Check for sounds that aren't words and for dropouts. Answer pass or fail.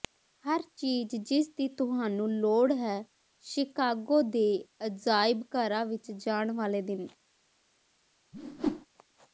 fail